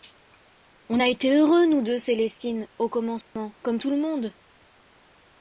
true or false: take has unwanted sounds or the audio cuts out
true